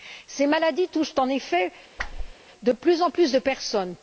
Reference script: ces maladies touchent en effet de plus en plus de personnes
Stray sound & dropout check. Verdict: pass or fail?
fail